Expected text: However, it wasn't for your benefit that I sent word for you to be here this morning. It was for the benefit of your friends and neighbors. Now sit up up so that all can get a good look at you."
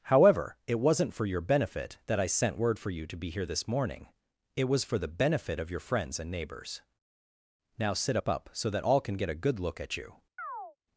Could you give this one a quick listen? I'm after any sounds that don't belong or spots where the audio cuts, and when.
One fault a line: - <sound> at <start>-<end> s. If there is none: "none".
- chirp at 10.4-10.8 s